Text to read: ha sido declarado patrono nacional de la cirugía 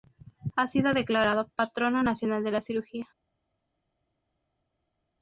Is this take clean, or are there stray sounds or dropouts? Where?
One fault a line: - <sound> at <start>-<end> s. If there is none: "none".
none